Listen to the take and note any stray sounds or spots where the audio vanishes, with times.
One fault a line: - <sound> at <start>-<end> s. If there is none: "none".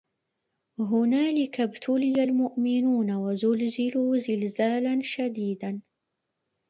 none